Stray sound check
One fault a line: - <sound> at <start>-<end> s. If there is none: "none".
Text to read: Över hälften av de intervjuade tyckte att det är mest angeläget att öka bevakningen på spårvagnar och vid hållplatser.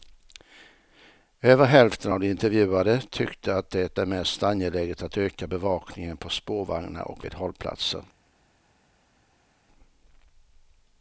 none